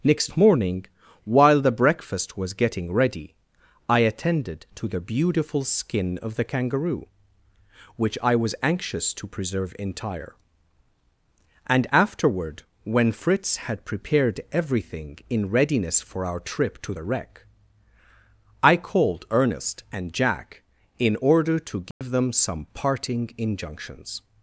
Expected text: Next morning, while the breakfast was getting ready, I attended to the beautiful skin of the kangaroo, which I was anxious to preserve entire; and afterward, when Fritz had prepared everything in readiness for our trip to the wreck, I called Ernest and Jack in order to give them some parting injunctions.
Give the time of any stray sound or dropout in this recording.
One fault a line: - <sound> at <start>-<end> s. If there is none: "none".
- dropout at 21.9-22.0 s